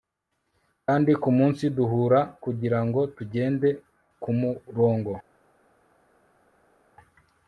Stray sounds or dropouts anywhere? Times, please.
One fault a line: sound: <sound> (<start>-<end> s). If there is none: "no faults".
no faults